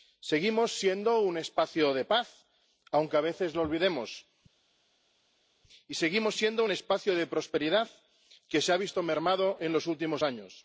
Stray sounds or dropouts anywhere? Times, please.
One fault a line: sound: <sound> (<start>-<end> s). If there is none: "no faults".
no faults